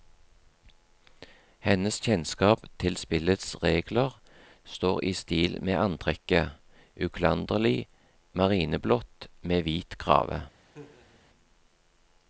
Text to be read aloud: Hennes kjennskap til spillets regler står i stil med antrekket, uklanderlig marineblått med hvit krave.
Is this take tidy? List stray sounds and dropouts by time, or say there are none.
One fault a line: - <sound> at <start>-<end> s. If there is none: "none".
- laugh at 10.6-11.2 s